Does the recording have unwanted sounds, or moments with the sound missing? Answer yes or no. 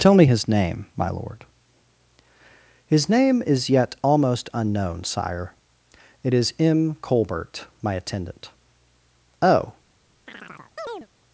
yes